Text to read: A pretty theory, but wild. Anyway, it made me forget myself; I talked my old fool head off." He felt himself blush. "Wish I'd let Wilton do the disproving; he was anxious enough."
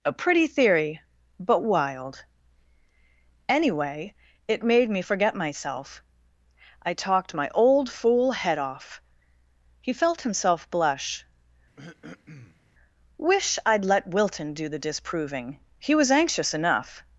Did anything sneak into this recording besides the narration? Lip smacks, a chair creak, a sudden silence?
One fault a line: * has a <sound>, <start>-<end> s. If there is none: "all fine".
* has a throat clearing, 11.8-12.6 s